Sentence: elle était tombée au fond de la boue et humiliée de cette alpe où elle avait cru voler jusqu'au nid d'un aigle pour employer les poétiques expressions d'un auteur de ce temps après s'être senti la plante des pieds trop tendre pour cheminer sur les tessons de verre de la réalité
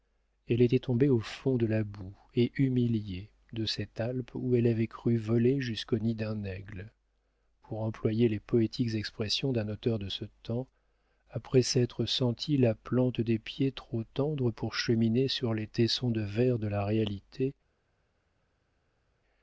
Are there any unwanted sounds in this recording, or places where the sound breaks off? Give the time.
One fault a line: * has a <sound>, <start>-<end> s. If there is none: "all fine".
all fine